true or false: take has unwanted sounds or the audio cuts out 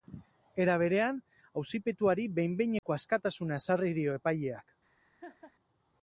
true